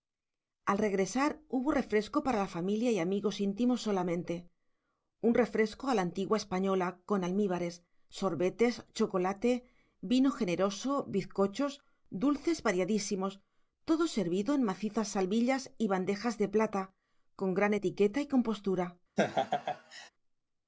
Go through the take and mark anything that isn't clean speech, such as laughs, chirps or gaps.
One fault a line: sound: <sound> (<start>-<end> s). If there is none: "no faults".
sound: laugh (19.2-20.1 s)